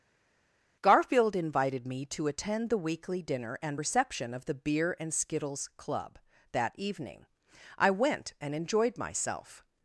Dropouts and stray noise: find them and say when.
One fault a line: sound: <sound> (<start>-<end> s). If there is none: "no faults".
no faults